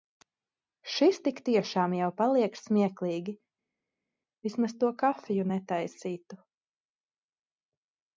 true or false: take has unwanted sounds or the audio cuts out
false